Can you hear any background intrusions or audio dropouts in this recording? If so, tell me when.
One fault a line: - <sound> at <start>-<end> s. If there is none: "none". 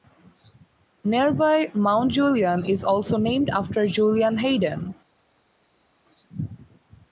none